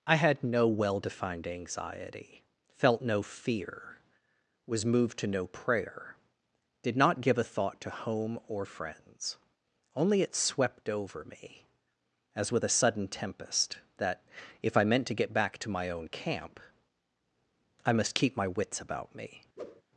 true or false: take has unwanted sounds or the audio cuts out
true